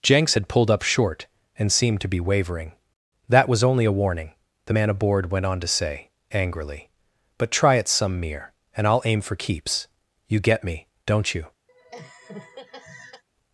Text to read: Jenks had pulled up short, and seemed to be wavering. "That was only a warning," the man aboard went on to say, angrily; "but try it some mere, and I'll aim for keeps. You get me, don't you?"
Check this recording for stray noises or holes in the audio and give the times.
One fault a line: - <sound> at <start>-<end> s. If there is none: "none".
- laugh at 11.7-13.2 s